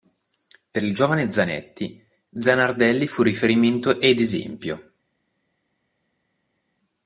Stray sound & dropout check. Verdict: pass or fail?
pass